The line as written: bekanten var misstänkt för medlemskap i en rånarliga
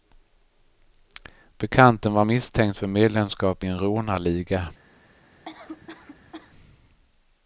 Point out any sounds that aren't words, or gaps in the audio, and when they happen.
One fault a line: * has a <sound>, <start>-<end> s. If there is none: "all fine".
* has a cough, 5.4-6.5 s